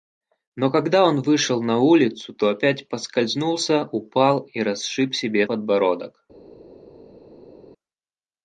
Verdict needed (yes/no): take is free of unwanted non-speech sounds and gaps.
yes